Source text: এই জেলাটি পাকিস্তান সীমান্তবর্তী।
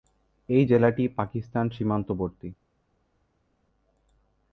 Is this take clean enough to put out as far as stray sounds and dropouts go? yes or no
yes